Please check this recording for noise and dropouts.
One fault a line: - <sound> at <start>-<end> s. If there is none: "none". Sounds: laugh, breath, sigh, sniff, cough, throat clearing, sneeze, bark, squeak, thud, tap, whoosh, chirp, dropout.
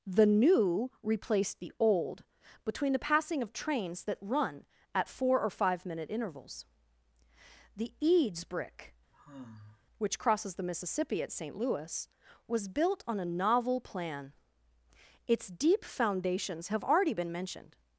- sigh at 9.1-9.8 s